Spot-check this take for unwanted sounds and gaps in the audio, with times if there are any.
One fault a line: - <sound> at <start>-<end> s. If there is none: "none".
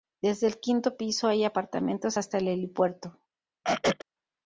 - throat clearing at 3.6-4.0 s